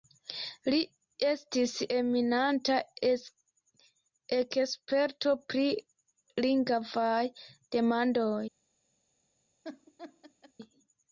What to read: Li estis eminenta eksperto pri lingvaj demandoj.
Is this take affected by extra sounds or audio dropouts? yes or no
yes